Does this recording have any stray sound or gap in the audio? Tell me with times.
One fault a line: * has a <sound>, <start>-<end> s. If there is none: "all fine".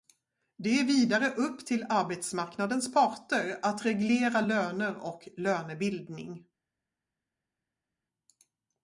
all fine